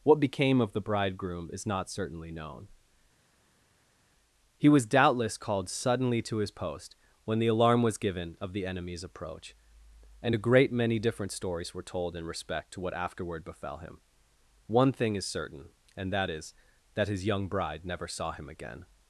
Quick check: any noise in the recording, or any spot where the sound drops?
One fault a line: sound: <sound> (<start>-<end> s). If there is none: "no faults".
no faults